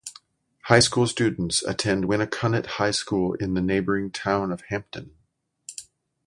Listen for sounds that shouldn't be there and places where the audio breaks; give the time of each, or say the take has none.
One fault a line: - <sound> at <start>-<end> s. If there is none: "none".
none